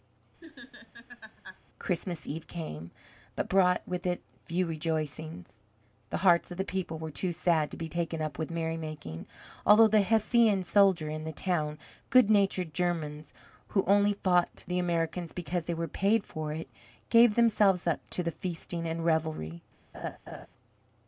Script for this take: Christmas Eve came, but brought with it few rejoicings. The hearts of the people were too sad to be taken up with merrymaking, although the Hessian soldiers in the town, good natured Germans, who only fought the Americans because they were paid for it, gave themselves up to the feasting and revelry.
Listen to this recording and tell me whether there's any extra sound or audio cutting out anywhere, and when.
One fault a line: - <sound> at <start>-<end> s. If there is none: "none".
- laugh at 0.4-1.6 s
- laugh at 19.9-20.5 s